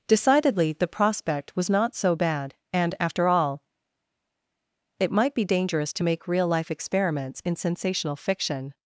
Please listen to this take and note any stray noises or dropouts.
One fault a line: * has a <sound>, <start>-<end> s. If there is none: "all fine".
all fine